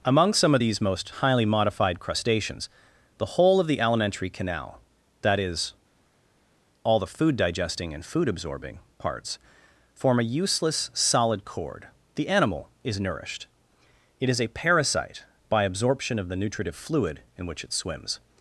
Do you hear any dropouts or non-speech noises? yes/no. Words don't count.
no